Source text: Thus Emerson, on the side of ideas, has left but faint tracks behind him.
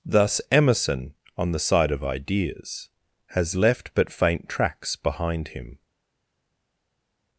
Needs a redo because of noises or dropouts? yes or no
no